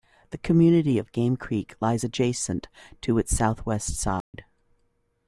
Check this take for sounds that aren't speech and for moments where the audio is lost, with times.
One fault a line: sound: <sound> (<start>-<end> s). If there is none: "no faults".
sound: dropout (4.2-4.3 s)